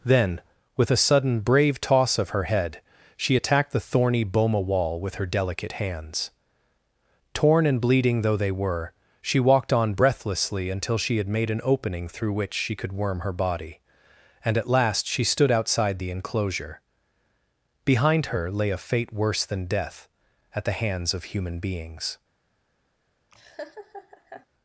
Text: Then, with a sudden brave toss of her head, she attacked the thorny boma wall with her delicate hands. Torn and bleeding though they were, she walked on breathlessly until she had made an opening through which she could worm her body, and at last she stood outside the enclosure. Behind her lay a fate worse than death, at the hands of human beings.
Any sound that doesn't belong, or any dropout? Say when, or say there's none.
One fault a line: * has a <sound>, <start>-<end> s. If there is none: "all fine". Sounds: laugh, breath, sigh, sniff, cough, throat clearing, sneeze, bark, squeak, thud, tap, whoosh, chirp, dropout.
* has a laugh, 23.3-24.5 s